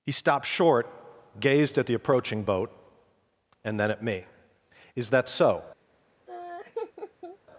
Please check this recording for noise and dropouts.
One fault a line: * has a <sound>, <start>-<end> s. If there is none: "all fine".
* has a laugh, 6.3-7.4 s